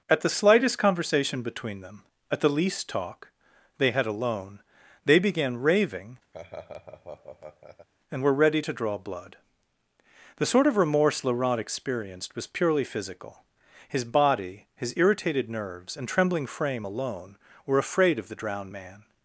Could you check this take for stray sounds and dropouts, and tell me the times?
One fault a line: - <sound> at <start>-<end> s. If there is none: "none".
- laugh at 6.3-7.9 s